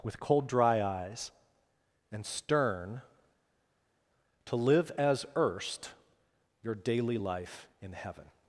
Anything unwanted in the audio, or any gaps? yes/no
no